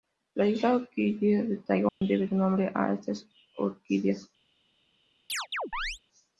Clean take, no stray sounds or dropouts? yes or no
no